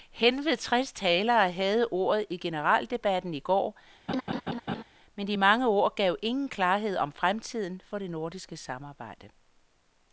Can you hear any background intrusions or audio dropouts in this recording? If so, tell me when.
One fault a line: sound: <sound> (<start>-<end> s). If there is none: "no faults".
sound: laugh (4.1-4.8 s)